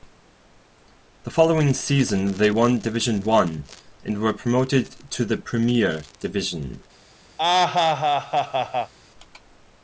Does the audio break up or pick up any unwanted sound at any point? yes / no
yes